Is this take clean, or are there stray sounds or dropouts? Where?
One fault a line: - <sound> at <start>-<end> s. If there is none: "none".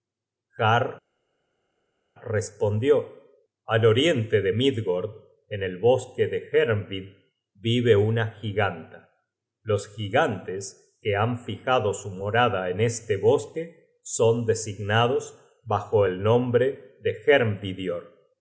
none